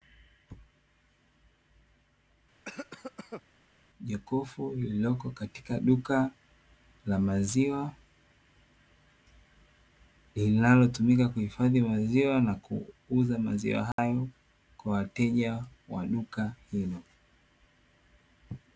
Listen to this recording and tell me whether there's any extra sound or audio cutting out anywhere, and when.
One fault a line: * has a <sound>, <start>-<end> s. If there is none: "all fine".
* has a cough, 2.7-3.4 s
* has a dropout, 13.9-14.0 s